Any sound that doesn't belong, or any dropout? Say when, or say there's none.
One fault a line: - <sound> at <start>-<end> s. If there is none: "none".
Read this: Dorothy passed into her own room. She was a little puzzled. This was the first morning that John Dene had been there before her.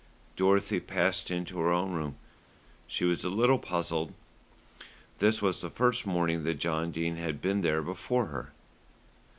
none